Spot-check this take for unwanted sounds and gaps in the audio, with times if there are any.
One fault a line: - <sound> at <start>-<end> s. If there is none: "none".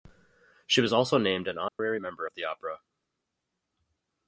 - dropout at 1.7-1.8 s